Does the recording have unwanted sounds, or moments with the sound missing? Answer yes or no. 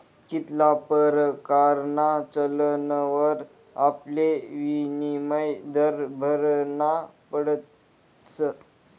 no